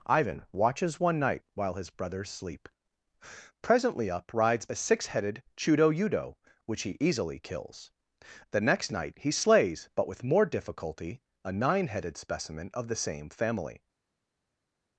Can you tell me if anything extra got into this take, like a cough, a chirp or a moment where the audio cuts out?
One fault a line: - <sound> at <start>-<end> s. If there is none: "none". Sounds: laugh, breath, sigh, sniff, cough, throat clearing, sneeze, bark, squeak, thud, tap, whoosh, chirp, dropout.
none